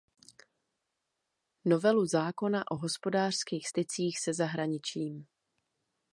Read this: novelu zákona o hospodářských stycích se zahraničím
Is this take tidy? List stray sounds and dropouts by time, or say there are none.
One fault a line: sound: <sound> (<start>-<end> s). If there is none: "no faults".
no faults